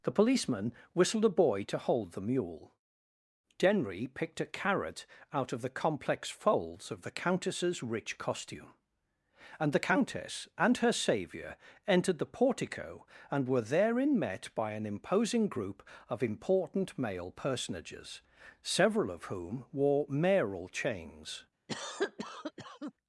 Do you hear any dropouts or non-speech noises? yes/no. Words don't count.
yes